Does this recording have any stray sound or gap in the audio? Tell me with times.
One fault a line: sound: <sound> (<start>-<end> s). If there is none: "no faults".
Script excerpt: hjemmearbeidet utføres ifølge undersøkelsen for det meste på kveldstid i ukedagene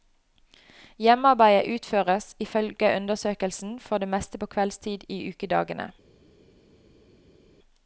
no faults